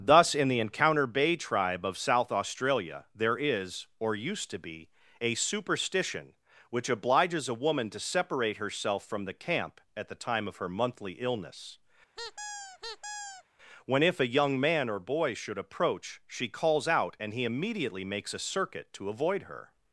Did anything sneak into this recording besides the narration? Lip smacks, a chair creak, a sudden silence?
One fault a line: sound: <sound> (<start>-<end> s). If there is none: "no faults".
sound: squeak (12.2-13.4 s)